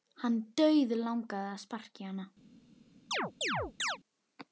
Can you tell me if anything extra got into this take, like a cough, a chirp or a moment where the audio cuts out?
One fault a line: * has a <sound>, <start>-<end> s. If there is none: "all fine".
* has a chirp, 3.1-4.0 s